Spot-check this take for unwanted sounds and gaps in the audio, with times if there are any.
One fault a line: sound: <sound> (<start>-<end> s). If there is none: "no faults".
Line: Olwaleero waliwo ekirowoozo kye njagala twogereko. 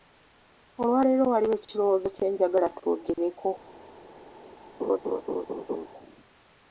sound: laugh (4.8-5.9 s)